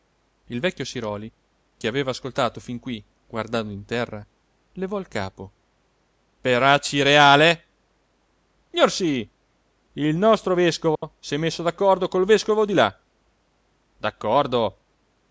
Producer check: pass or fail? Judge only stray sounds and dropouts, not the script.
fail